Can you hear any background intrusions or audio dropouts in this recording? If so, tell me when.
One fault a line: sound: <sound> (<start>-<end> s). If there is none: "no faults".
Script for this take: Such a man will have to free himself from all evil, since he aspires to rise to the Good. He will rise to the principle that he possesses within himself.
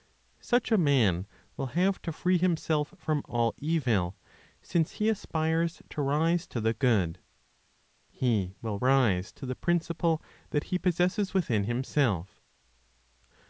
no faults